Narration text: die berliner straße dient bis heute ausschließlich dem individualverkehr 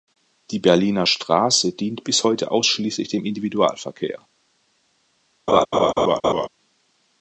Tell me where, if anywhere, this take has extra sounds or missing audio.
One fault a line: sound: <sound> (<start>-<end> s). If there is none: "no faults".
sound: laugh (5.5-6.5 s)